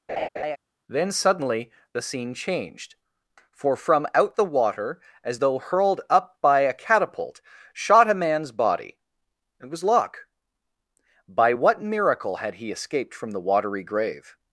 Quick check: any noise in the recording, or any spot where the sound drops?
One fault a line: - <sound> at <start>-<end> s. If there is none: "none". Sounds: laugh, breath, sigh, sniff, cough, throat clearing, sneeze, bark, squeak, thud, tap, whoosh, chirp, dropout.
- laugh at 0.1-0.6 s